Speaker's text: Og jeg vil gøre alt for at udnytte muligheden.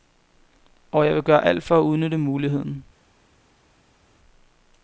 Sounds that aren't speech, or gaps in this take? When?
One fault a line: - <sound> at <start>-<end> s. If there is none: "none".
none